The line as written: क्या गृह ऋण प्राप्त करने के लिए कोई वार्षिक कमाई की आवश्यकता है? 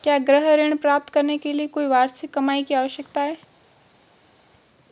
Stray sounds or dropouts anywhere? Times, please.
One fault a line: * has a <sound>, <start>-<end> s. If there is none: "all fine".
all fine